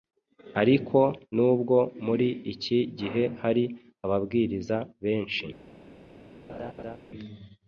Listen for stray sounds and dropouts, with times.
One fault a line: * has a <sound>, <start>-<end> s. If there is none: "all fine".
* has a laugh, 6.5-7.0 s